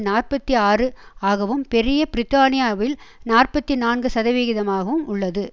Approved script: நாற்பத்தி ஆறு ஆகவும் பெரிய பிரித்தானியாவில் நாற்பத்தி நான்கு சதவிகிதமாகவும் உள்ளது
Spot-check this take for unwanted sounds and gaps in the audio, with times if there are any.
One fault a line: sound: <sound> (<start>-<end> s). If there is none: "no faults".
no faults